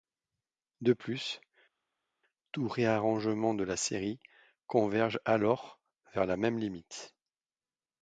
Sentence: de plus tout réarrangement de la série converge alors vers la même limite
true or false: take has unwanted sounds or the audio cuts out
false